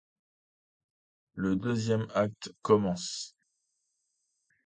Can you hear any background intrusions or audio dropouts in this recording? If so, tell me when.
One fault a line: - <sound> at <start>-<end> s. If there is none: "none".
none